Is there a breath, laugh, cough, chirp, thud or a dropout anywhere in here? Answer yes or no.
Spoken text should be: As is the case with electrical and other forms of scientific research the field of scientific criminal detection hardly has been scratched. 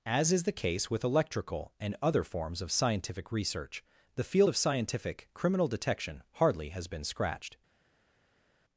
no